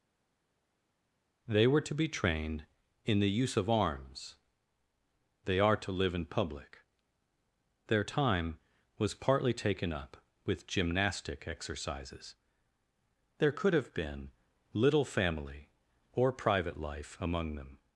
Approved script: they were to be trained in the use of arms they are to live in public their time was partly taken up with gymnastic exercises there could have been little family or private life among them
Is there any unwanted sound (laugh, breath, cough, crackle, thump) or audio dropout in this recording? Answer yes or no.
no